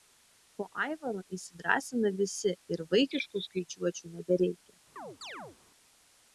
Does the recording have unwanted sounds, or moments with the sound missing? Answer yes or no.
yes